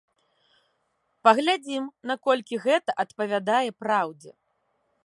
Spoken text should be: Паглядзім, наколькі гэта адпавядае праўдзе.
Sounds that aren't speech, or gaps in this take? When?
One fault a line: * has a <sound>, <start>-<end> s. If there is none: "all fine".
all fine